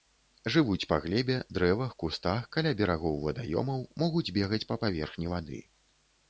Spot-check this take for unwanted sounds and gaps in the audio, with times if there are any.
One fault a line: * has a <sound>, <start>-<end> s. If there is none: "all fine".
all fine